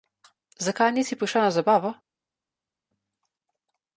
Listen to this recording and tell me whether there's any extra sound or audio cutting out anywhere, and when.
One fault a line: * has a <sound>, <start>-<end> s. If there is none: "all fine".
all fine